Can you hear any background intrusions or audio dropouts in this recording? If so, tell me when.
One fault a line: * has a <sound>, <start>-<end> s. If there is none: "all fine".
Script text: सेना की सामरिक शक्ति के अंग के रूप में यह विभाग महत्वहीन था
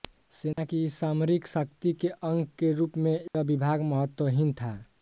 * has a dropout, 0.5-0.6 s
* has a dropout, 3.3-3.3 s